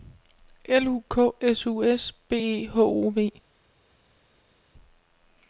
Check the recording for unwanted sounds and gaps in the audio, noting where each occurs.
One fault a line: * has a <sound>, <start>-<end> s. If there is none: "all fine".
all fine